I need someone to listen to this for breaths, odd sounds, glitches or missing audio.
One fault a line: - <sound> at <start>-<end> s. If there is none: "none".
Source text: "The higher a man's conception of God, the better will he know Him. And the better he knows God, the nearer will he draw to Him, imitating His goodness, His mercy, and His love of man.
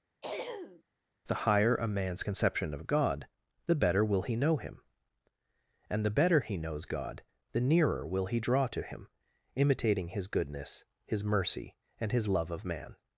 - throat clearing at 0.2-0.8 s